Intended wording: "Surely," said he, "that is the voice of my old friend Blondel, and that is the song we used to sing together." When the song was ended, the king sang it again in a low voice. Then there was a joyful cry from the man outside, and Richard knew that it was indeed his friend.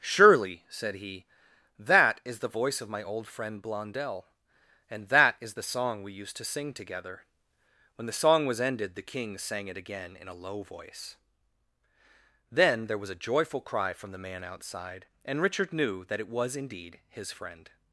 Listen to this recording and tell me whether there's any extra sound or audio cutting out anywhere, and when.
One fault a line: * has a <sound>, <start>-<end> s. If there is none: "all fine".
all fine